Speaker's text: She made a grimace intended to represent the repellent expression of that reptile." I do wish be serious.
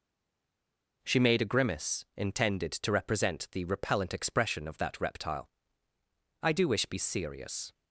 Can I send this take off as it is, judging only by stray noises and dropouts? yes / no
yes